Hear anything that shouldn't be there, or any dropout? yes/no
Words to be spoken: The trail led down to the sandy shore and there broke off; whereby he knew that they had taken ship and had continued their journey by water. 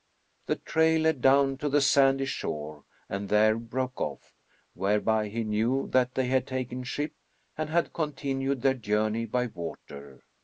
no